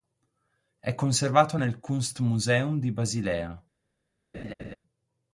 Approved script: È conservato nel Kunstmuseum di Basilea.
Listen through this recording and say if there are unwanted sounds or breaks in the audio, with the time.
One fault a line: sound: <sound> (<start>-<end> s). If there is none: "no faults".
sound: laugh (4.3-4.8 s)